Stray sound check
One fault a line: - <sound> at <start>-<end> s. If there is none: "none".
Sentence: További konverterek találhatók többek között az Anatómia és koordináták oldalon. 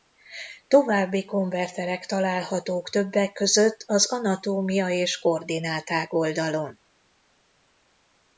none